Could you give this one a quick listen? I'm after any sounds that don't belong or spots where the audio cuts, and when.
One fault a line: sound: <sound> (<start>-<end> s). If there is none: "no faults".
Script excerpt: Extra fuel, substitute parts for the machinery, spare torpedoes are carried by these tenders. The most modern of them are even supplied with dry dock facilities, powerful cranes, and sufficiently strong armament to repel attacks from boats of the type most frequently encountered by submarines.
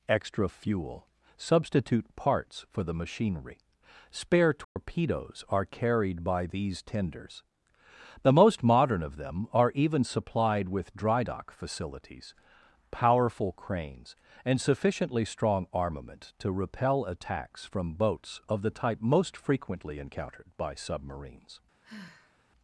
sound: dropout (4.6-4.8 s)
sound: sigh (21.8-22.4 s)